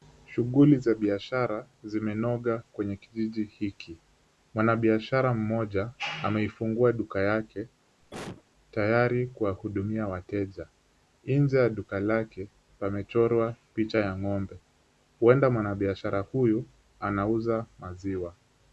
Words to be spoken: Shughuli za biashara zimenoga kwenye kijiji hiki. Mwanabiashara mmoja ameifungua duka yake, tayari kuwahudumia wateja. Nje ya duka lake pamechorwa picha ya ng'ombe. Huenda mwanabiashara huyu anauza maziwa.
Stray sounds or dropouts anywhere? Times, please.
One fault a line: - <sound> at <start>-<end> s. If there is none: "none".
- cough at 8.0-8.4 s